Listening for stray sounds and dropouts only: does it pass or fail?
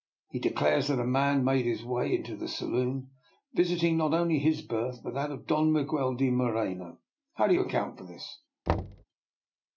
fail